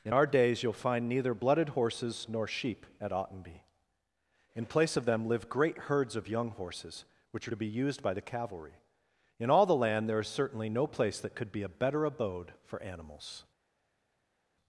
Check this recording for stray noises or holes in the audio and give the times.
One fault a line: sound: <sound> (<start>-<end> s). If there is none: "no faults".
no faults